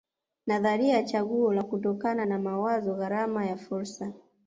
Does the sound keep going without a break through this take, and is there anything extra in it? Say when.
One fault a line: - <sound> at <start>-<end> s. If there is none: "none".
none